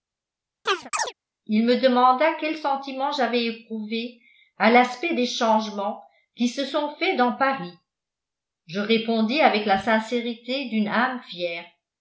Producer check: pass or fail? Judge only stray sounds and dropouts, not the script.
fail